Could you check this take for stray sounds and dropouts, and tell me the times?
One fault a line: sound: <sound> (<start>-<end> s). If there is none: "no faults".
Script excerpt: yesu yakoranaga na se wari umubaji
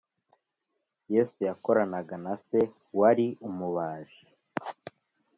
no faults